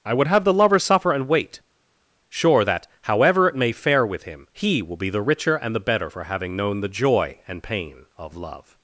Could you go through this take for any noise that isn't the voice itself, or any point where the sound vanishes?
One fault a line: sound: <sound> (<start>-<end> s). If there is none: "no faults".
no faults